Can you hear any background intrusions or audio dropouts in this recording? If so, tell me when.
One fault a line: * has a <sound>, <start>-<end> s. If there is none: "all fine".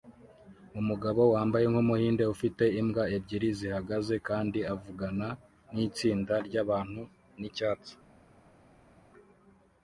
all fine